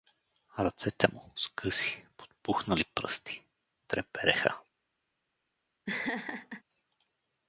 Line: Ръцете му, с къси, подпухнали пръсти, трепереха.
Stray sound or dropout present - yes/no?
yes